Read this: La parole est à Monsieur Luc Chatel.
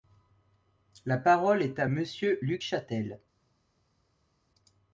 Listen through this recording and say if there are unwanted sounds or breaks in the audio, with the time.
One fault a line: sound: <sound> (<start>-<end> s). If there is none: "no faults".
no faults